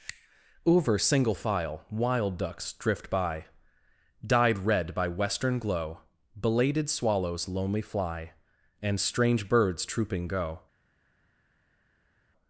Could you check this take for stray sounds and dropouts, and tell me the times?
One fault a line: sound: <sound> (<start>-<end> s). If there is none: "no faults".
no faults